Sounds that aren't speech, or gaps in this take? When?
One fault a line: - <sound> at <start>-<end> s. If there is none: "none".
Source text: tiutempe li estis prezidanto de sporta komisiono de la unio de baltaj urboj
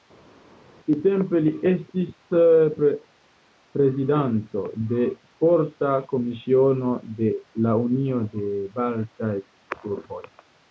none